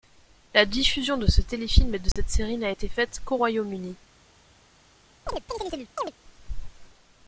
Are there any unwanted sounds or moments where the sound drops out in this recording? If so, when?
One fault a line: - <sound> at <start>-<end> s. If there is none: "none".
- dropout at 2.1-2.2 s
- chirp at 5.3-6.1 s